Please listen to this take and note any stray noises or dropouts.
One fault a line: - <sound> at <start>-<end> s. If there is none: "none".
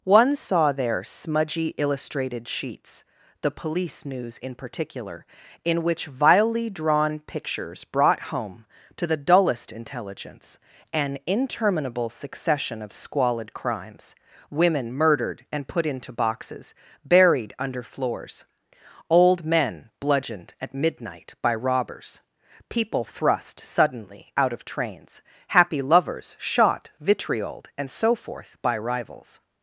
none